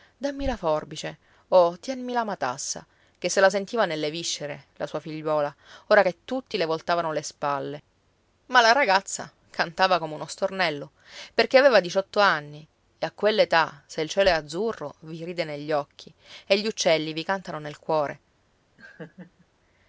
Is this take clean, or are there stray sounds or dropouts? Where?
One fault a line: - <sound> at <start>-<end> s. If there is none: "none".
- laugh at 18.8-19.5 s